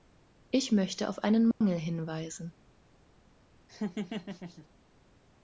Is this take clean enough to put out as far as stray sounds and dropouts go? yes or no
no